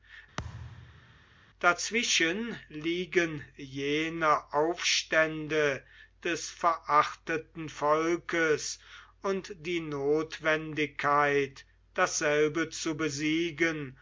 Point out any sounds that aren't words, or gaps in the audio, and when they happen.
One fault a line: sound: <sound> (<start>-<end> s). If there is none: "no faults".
sound: thud (0.4-1.2 s)